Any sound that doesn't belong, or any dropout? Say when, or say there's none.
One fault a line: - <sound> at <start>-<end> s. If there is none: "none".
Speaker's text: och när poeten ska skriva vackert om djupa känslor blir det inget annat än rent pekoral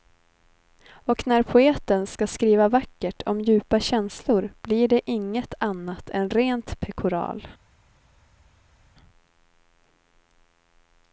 none